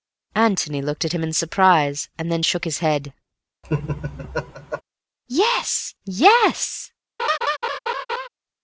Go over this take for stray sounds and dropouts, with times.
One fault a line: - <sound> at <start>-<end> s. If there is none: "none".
- laugh at 3.6-4.8 s
- laugh at 7.2-8.3 s